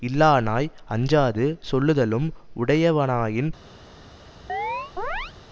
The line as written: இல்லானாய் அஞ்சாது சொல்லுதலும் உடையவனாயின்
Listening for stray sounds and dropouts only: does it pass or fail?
fail